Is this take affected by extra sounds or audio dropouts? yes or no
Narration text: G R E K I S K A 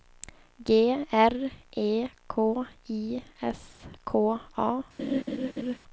yes